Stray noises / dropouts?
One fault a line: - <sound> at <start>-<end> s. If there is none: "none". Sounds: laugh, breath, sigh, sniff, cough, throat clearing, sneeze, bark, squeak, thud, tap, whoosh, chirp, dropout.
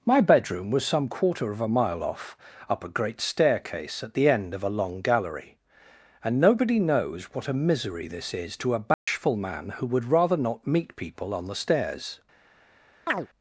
- dropout at 8.9-9.1 s
- chirp at 13.1-13.3 s